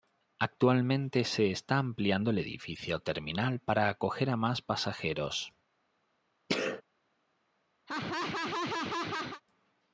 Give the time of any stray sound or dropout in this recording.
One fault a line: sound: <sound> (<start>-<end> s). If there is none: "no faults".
sound: sneeze (6.5-6.8 s)
sound: laugh (7.9-9.4 s)